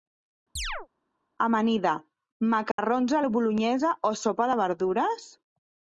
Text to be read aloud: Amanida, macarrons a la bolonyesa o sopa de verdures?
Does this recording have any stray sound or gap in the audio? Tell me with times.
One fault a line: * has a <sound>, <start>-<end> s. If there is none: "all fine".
* has a chirp, 0.6-0.9 s
* has a dropout, 2.7-2.8 s